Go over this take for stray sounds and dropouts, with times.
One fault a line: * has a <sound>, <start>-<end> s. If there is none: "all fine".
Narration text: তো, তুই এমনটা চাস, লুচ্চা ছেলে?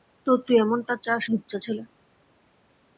all fine